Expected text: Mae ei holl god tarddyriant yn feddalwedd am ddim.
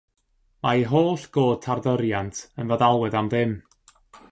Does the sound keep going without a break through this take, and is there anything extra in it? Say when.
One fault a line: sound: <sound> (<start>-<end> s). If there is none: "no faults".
no faults